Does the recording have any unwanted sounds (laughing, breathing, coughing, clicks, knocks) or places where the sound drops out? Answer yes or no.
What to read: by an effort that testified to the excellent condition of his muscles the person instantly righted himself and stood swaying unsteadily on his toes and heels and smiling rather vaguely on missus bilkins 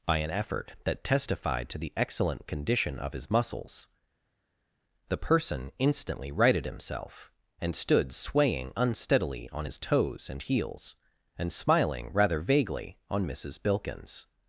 no